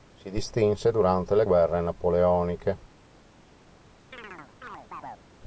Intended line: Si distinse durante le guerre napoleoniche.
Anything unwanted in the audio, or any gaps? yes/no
yes